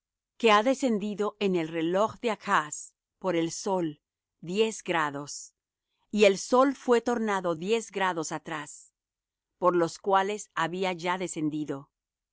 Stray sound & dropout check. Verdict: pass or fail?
pass